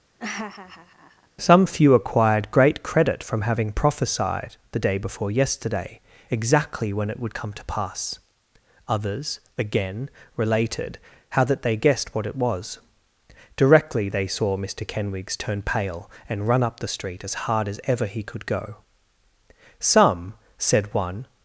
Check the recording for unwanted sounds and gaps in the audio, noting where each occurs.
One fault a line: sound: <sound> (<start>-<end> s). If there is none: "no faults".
sound: laugh (0.2-1.3 s)